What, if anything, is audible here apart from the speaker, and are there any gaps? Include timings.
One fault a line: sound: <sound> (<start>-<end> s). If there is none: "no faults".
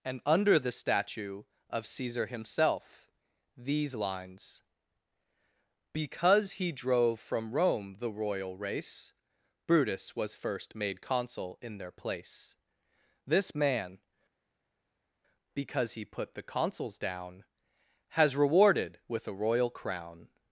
no faults